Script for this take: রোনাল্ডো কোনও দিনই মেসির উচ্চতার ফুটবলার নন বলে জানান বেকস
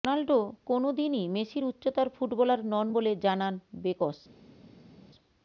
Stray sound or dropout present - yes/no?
no